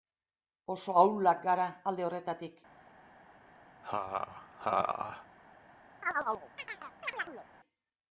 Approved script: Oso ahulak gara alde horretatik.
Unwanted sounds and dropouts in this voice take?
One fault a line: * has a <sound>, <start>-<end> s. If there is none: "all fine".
* has a laugh, 3.8-5.3 s
* has a chirp, 6.0-7.5 s